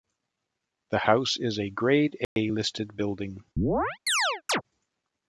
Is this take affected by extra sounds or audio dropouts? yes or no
yes